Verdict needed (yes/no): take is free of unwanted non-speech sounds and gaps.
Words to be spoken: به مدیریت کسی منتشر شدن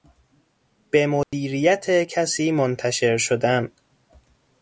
no